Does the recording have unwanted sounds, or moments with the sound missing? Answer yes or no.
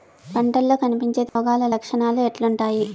yes